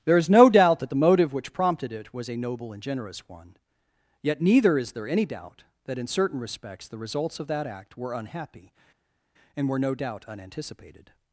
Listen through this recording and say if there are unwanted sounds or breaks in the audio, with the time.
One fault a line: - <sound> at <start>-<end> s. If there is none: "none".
none